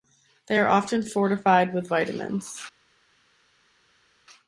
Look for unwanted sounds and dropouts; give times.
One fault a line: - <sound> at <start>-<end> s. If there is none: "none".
none